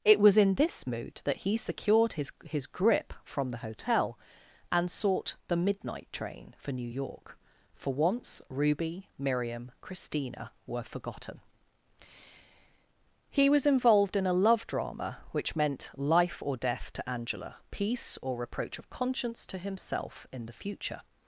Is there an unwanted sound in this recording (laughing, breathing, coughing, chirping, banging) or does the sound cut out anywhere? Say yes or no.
no